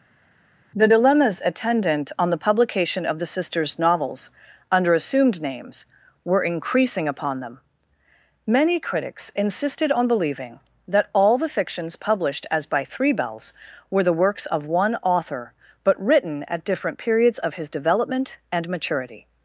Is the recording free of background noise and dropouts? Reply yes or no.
yes